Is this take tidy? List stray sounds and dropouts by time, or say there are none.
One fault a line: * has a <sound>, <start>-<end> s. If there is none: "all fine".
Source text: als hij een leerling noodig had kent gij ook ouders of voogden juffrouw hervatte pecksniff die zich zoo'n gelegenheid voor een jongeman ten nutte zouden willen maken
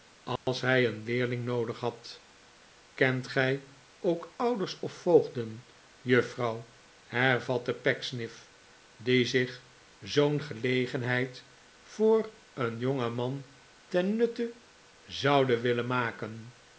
* has a dropout, 0.4-0.5 s